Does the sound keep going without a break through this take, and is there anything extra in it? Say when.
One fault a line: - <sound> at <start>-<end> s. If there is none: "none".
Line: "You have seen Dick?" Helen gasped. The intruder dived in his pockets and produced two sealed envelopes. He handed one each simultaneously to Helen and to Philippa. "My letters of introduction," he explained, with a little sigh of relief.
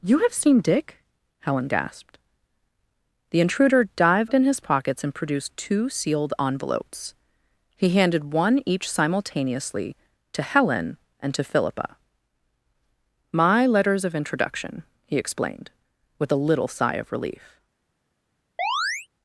- chirp at 18.6-19.1 s